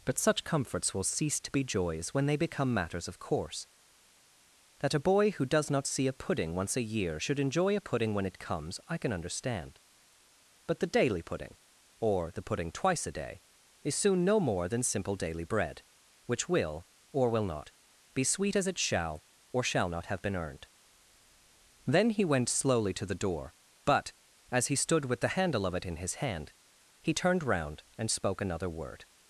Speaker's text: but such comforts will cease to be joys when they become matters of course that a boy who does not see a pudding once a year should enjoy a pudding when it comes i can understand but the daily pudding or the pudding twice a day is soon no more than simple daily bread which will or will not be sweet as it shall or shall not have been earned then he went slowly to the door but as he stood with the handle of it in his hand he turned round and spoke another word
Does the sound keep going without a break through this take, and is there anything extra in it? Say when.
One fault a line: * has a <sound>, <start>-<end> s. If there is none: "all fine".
all fine